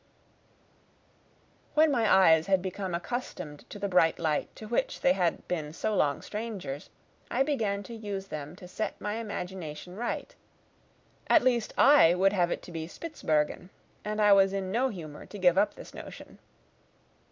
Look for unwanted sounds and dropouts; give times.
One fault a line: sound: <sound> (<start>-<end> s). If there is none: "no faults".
no faults